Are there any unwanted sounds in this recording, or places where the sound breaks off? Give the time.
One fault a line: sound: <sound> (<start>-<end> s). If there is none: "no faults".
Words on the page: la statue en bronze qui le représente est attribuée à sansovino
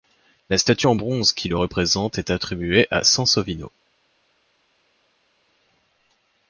no faults